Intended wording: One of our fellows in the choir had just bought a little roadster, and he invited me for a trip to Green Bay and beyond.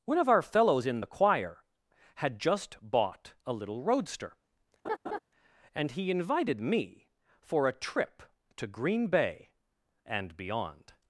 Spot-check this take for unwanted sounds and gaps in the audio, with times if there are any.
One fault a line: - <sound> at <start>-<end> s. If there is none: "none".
- laugh at 4.8-5.2 s